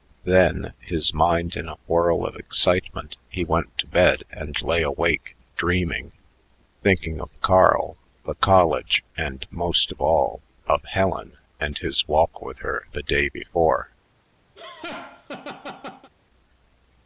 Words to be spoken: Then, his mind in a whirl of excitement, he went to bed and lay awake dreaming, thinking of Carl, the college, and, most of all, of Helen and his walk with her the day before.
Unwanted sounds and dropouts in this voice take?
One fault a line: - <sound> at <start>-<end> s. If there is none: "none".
- laugh at 14.6-16.1 s